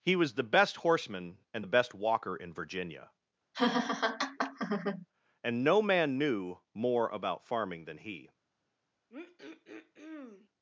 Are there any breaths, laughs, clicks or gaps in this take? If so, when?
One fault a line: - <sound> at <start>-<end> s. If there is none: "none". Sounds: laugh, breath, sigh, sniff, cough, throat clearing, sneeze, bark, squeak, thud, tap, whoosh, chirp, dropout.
- laugh at 3.5-5.1 s
- throat clearing at 9.1-10.5 s